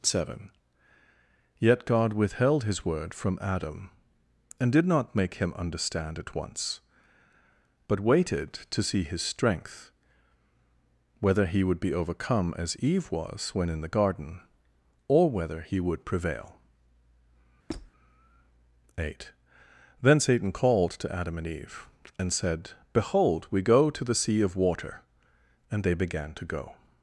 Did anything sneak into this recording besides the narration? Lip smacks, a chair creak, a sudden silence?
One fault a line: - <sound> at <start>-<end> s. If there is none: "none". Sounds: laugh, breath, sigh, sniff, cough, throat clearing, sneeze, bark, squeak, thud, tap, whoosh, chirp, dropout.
- squeak at 17.7-17.9 s